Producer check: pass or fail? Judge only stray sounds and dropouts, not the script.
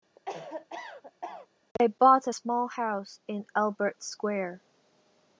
fail